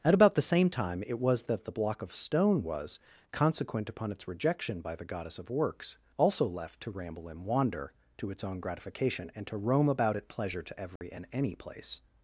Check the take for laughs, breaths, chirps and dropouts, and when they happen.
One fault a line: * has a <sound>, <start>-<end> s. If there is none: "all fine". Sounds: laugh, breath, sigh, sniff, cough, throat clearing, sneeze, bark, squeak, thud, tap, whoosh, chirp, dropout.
* has a dropout, 11.0-11.0 s